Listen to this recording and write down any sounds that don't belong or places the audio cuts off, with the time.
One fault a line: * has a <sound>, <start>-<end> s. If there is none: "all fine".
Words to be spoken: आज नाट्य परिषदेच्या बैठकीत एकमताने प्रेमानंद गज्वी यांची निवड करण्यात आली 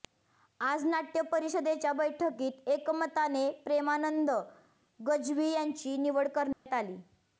* has a dropout, 6.5-6.7 s